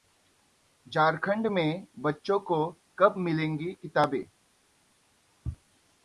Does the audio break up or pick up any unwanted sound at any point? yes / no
no